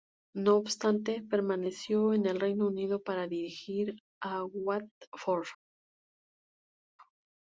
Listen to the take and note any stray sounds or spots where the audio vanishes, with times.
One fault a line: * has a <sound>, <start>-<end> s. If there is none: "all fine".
all fine